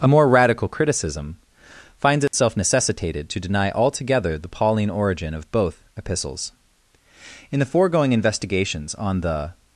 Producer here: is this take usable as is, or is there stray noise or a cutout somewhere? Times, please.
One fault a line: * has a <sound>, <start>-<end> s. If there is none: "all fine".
* has a dropout, 2.3-2.3 s